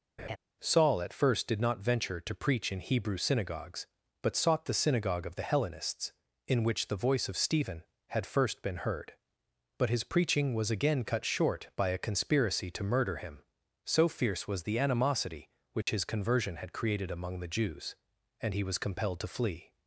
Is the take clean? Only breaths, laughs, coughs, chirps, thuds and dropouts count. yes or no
no